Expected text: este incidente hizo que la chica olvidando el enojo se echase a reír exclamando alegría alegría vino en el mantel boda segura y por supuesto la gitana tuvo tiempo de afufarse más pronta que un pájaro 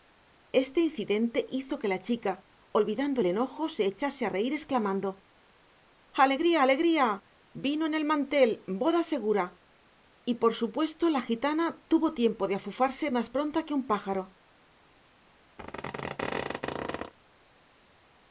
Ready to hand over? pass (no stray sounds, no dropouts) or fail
fail